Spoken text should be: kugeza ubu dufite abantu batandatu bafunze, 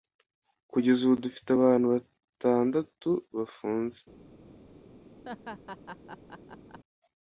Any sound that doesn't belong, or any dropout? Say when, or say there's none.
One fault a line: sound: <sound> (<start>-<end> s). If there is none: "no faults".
sound: laugh (5.2-6.8 s)